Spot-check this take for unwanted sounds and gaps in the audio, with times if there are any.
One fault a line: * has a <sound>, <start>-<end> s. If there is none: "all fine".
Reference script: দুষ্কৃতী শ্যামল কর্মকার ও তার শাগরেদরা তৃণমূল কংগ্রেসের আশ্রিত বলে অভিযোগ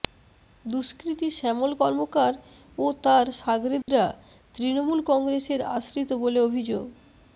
* has a dropout, 3.8-3.9 s